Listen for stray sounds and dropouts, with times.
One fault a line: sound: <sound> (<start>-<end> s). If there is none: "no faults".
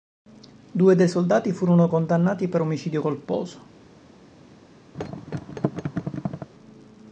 sound: thud (4.9-6.5 s)